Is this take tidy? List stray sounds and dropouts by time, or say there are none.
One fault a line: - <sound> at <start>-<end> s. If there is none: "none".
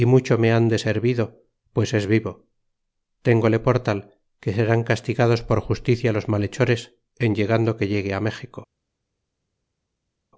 none